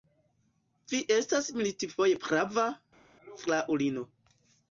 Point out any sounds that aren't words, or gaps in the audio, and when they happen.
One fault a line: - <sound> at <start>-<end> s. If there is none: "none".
none